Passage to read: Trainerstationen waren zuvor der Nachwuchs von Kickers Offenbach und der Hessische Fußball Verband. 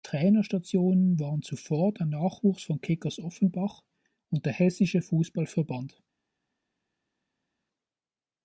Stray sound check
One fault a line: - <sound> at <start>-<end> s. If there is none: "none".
none